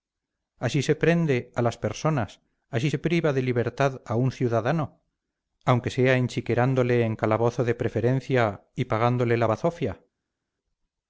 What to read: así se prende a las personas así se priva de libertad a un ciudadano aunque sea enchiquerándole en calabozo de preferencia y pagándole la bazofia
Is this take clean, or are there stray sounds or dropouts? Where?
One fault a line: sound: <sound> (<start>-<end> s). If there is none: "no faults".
no faults